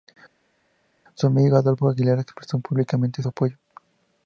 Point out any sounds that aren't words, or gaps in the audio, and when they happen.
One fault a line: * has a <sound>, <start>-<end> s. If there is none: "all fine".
all fine